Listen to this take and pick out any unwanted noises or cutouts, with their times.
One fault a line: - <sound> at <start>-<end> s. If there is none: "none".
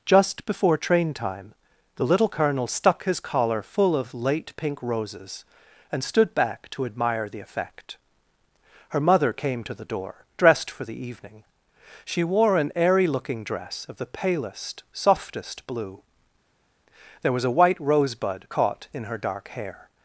none